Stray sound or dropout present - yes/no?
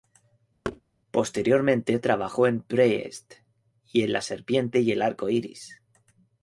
yes